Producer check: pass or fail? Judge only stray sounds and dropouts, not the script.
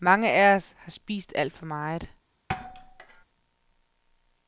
fail